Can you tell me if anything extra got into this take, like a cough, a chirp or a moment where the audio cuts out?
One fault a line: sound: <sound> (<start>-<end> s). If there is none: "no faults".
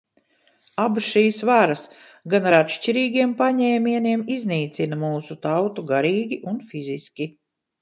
no faults